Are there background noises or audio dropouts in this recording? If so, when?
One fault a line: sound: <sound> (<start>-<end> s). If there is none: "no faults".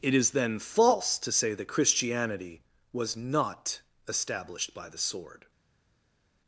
no faults